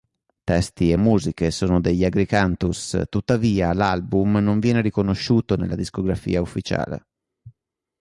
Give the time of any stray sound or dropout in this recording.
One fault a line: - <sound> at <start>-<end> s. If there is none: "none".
none